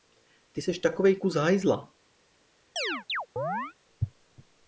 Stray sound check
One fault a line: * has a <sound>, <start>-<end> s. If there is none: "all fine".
* has a chirp, 2.8-3.7 s